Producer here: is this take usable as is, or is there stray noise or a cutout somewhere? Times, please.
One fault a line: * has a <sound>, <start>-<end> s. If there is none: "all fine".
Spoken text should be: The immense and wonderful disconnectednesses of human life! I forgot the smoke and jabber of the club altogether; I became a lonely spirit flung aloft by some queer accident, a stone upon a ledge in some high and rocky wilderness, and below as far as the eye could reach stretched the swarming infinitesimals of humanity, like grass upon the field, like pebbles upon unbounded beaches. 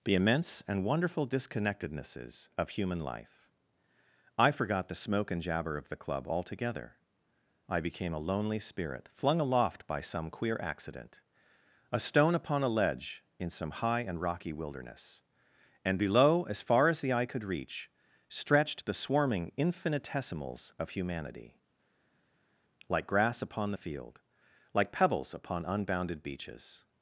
all fine